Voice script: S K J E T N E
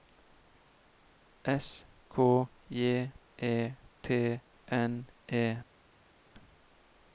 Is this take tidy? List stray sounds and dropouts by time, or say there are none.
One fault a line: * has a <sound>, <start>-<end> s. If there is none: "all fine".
all fine